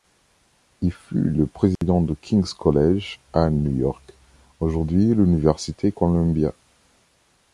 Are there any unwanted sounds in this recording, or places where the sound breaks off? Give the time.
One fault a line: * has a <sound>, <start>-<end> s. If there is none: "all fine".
* has a dropout, 1.8-1.8 s